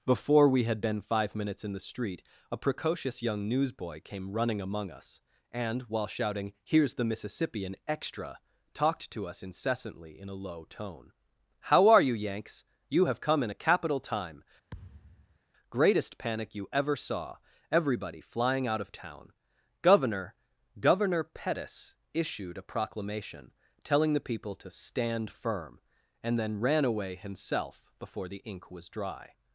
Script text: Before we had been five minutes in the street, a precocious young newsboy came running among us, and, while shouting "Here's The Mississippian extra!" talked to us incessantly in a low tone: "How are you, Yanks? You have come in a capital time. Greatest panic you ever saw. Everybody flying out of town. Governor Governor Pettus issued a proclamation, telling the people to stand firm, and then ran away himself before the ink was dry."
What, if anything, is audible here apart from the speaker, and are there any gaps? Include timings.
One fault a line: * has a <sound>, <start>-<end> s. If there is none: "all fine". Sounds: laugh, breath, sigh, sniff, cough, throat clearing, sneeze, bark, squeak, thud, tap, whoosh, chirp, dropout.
* has a thud, 14.7-15.4 s